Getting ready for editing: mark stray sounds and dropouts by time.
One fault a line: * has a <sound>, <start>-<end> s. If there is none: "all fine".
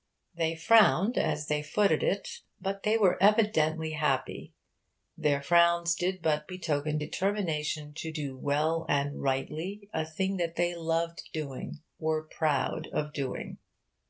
all fine